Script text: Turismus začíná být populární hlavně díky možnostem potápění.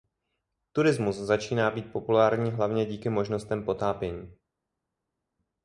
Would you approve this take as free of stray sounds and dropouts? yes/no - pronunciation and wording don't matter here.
yes